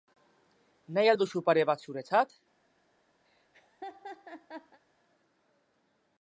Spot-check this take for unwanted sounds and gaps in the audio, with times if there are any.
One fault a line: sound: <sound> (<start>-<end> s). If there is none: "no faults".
sound: laugh (3.3-4.8 s)